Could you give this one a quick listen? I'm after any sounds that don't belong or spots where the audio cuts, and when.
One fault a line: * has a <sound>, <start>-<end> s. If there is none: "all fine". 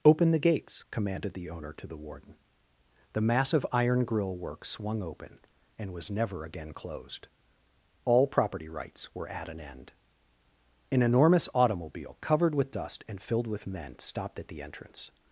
all fine